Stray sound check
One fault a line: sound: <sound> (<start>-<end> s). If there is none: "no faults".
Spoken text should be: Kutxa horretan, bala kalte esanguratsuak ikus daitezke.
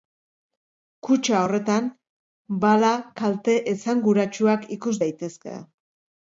no faults